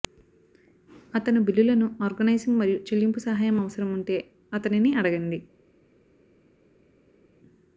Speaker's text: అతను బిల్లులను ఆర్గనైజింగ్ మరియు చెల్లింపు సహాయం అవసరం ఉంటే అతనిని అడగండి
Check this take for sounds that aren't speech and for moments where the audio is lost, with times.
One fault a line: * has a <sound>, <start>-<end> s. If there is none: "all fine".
all fine